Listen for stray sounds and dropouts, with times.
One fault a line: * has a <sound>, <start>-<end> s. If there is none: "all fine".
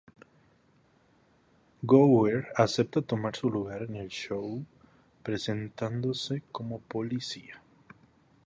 all fine